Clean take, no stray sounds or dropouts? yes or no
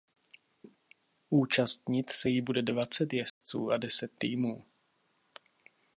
no